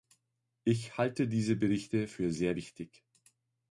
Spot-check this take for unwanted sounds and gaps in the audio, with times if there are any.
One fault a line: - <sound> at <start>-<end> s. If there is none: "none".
none